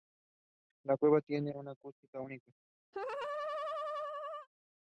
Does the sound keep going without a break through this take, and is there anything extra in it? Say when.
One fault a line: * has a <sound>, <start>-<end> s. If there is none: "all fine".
* has a laugh, 2.9-4.5 s